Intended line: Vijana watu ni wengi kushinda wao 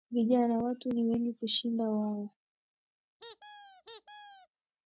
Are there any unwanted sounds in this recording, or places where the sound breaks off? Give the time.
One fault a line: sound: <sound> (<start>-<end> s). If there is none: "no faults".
sound: squeak (3.2-4.5 s)